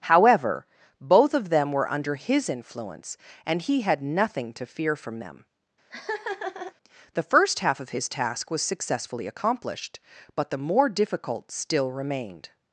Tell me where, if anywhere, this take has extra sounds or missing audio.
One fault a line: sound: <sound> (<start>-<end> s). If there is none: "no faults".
sound: laugh (5.9-6.7 s)